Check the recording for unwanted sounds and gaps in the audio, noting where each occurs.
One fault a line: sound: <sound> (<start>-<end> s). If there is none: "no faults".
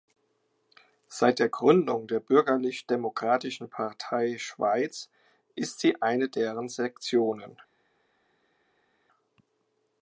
no faults